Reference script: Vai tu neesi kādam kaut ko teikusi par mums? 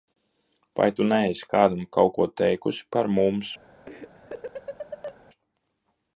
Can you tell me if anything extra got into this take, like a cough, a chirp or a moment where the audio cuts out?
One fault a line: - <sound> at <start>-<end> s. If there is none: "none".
- laugh at 3.9-5.2 s